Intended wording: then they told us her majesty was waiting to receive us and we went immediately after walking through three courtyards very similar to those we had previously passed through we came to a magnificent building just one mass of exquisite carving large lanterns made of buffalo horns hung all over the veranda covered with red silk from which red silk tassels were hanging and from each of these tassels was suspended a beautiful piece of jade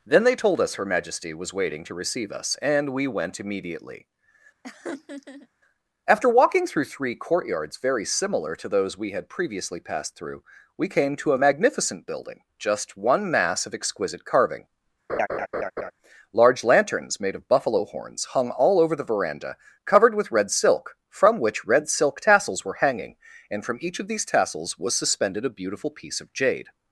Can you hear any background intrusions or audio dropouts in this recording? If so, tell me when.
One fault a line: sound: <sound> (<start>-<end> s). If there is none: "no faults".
sound: laugh (4.6-5.5 s)
sound: laugh (15.1-15.9 s)